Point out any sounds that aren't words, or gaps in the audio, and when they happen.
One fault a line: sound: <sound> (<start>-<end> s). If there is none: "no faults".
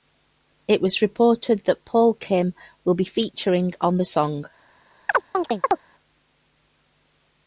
sound: chirp (5.1-5.8 s)